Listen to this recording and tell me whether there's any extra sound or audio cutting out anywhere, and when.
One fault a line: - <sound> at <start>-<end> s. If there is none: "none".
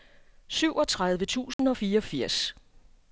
- dropout at 1.5-1.6 s